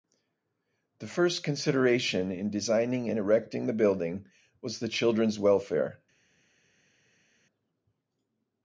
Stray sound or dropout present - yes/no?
no